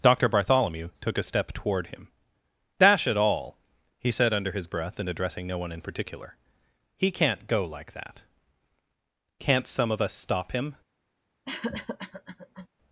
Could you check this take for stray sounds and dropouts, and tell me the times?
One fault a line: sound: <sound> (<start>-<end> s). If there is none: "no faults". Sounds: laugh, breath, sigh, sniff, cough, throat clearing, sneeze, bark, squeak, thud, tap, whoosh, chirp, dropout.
sound: cough (11.4-12.7 s)